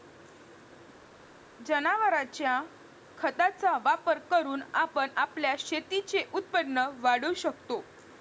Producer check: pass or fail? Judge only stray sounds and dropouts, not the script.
pass